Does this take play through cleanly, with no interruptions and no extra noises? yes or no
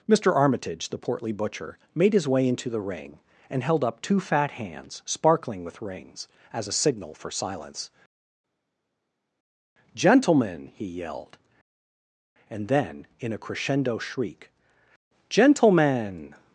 yes